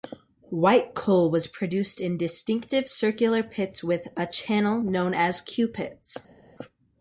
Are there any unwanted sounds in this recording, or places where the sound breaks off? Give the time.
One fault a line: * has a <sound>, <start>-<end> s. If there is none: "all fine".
all fine